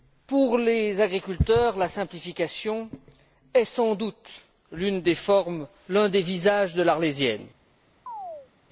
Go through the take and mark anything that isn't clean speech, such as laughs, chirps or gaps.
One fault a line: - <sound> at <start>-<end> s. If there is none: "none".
- chirp at 8.1-8.5 s